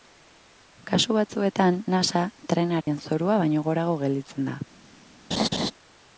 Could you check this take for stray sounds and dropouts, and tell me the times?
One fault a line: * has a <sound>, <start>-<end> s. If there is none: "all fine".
* has a dropout, 2.8-2.9 s
* has a laugh, 5.3-5.7 s